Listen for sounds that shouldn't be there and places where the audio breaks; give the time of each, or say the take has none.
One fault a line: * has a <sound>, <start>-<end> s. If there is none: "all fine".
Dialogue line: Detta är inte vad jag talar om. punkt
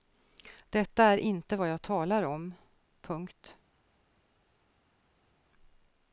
all fine